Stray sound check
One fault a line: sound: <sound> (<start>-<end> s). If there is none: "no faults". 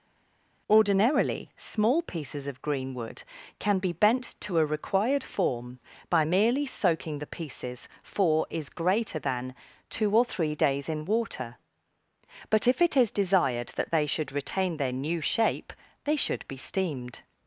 no faults